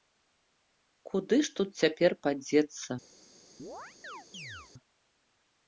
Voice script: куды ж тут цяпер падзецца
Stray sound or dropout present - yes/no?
yes